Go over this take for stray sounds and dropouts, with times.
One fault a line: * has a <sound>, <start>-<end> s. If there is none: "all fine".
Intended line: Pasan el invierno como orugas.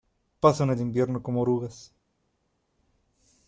all fine